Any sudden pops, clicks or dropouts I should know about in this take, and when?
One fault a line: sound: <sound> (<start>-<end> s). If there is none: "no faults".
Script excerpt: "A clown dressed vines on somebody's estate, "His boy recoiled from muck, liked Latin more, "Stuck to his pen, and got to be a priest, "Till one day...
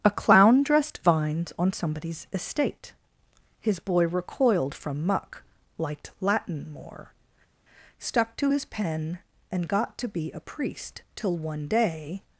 no faults